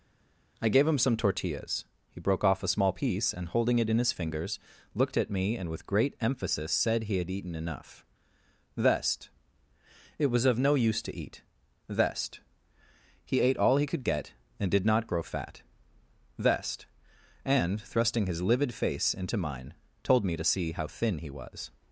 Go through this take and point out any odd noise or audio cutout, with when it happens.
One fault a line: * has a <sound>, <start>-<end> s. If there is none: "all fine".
all fine